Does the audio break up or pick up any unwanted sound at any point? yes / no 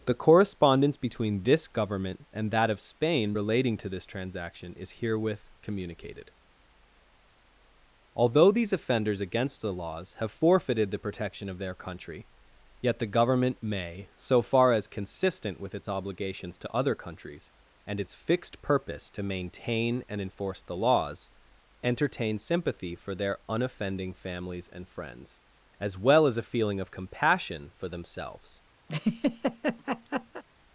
yes